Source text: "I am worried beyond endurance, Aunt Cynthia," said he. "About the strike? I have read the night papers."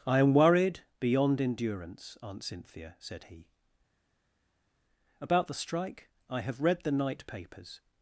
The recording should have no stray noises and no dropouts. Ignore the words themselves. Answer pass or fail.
pass